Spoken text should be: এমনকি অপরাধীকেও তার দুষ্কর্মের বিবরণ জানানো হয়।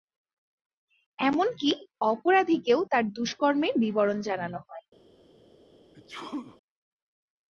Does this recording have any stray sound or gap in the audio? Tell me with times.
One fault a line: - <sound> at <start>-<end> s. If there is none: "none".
- sneeze at 5.9-6.6 s